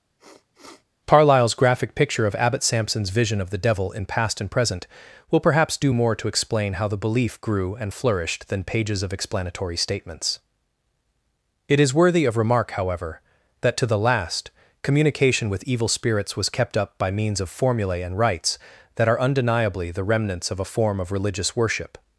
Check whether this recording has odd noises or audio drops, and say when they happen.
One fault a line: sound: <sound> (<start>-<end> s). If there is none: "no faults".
sound: sniff (0.2-0.8 s)